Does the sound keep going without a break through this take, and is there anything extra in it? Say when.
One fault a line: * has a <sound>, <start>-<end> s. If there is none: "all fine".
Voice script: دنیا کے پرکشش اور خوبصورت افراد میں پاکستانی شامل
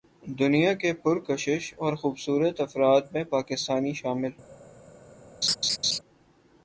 * has a laugh, 5.4-6.0 s